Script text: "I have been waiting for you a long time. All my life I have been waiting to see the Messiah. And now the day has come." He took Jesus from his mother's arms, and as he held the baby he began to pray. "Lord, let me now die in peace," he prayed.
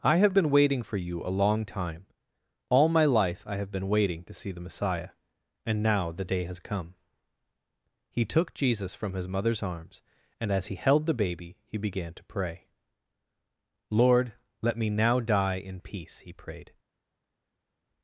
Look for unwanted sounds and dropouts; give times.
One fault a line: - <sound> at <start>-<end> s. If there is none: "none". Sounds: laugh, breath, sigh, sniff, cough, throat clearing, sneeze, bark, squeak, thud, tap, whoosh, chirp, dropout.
none